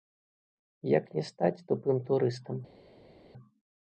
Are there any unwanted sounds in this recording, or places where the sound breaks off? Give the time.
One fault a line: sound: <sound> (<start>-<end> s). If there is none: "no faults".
no faults